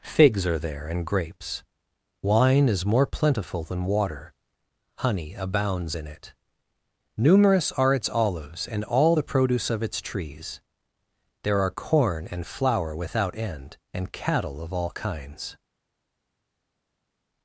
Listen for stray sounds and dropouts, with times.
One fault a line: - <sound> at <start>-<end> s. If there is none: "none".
none